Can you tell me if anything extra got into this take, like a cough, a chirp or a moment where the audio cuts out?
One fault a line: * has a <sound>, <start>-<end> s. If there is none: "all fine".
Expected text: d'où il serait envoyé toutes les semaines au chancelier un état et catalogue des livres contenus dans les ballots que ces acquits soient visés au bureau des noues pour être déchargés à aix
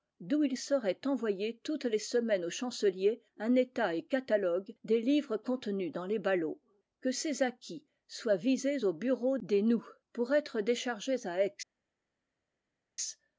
all fine